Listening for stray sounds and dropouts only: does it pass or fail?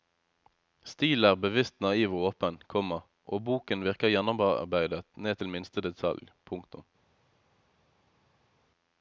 pass